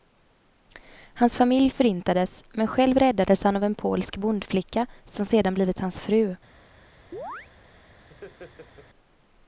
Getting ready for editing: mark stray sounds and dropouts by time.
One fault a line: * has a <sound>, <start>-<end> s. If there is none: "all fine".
* has a chirp, 7.1-7.5 s
* has a laugh, 8.1-8.9 s